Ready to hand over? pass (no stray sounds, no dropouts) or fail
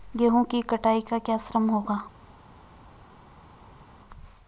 pass